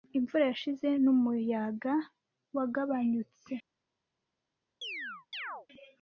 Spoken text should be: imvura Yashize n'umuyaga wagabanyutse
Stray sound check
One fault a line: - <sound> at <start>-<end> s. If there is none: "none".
- chirp at 4.8-5.7 s